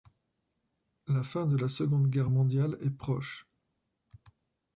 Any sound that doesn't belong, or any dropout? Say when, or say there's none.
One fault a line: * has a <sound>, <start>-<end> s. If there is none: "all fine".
all fine